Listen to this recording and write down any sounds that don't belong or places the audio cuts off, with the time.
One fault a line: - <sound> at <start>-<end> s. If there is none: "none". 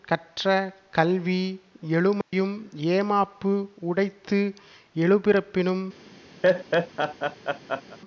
- dropout at 2.2-2.3 s
- laugh at 6.4-8.0 s